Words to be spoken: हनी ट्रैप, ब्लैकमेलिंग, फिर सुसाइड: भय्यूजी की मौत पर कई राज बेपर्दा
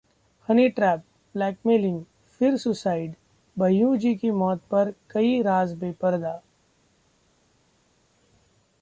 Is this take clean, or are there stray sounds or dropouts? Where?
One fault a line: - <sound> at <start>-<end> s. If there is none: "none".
none